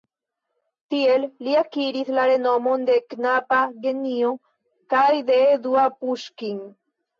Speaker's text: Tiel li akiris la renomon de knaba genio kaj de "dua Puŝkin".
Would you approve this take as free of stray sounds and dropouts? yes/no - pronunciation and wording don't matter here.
yes